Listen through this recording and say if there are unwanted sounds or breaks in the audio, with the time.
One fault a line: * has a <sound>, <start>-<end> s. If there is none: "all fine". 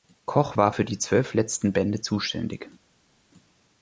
all fine